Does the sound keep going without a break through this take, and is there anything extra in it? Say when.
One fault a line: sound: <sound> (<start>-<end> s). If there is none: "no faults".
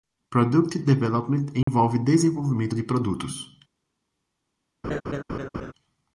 sound: dropout (1.6-1.7 s)
sound: laugh (4.8-5.7 s)